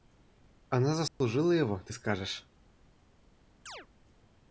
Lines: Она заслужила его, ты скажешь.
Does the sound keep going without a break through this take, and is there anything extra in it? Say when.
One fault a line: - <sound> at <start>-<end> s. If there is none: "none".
- dropout at 1.1-1.2 s
- chirp at 3.7-3.9 s